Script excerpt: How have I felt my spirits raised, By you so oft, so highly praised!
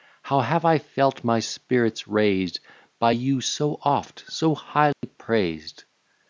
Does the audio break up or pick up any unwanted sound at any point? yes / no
yes